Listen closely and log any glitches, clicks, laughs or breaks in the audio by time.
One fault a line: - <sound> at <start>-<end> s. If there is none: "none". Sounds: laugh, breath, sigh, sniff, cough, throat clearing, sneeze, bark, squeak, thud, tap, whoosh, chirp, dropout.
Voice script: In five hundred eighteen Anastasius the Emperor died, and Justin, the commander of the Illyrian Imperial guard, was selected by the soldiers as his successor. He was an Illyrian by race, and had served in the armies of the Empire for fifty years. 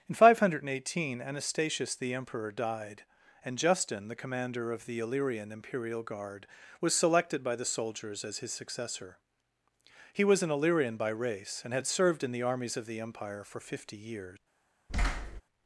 - thud at 14.9-15.4 s